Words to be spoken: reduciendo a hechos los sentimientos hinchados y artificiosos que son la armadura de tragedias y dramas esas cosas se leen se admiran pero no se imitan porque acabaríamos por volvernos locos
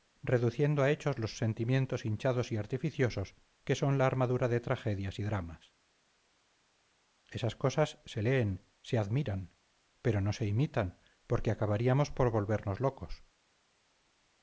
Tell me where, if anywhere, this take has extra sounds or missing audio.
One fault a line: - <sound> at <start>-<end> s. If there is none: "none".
none